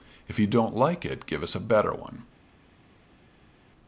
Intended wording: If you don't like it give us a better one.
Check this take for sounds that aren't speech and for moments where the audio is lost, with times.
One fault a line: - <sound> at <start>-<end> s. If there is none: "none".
none